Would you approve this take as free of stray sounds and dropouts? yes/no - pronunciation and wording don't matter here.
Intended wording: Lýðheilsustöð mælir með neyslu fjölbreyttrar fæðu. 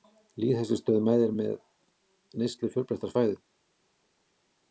yes